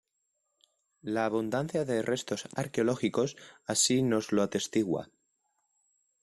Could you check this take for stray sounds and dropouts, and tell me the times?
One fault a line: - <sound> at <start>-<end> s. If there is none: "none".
none